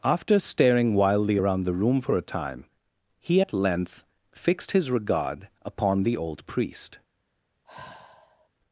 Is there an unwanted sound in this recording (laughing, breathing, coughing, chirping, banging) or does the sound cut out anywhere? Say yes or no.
yes